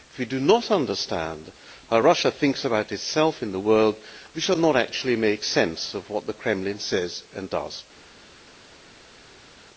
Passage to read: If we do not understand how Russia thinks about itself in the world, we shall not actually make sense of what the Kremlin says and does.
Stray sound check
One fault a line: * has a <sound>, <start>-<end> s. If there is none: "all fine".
all fine